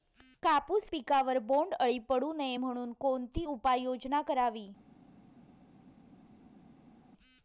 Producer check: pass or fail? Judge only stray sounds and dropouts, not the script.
pass